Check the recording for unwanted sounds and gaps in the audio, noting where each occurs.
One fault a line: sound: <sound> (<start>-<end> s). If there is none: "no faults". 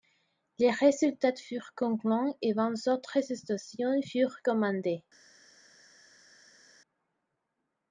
no faults